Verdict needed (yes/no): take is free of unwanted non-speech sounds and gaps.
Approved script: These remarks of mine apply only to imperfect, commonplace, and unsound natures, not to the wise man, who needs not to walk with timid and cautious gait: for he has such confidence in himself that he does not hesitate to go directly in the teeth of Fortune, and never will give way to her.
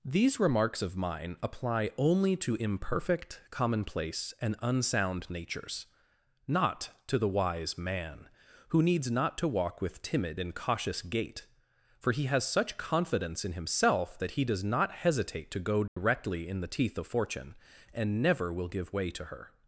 no